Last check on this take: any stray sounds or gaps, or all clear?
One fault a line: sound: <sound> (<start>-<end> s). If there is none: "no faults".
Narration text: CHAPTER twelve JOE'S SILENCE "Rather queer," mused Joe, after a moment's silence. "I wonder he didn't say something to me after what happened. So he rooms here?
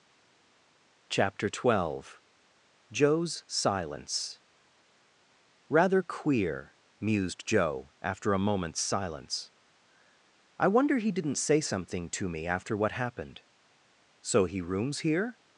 no faults